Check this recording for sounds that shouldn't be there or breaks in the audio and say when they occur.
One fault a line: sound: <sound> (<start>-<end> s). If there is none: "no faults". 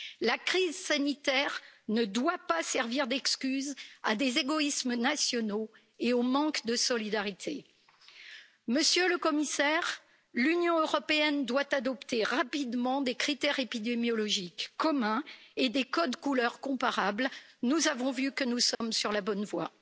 sound: dropout (18.7-18.8 s)